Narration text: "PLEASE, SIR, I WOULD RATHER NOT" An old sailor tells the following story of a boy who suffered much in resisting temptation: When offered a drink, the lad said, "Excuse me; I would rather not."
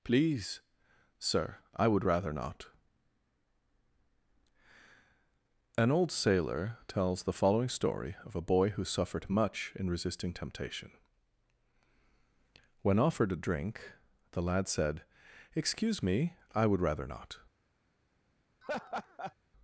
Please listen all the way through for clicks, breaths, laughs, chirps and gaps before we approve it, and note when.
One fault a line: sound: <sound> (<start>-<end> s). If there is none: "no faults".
sound: laugh (18.6-19.3 s)